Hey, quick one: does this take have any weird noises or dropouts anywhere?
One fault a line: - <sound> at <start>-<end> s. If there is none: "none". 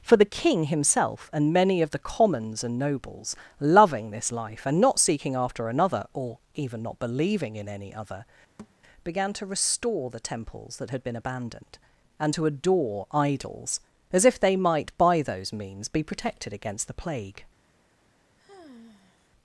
- thud at 8.6-8.8 s
- sigh at 18.4-19.3 s